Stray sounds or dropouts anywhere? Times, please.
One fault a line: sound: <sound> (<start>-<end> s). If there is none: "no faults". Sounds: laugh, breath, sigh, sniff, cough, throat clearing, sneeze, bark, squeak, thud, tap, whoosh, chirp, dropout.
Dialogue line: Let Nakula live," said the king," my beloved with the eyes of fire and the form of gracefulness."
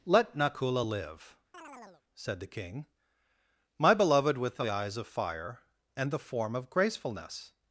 sound: chirp (1.5-2.0 s)